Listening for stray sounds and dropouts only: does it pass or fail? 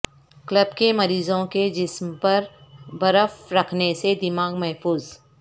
pass